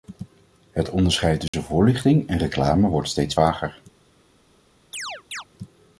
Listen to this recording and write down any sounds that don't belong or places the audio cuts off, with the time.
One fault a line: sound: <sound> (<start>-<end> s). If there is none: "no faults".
sound: dropout (1.5-1.5 s)
sound: chirp (4.9-5.4 s)